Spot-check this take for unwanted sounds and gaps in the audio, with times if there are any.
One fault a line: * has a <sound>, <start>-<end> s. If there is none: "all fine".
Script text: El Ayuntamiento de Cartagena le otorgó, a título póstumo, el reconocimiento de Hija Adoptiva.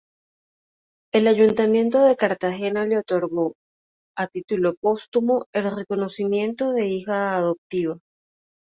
all fine